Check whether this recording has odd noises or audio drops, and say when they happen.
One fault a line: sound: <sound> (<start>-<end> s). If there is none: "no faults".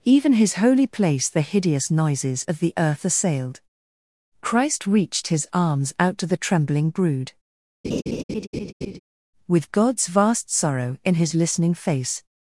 sound: laugh (7.8-9.0 s)